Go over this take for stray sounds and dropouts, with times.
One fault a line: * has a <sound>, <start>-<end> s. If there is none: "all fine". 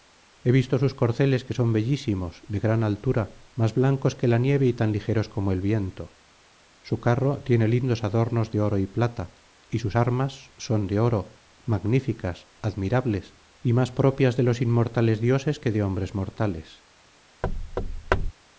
* has a thud, 17.4-18.3 s